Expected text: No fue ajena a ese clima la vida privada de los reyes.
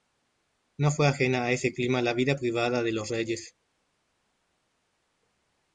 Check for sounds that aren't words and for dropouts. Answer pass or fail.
pass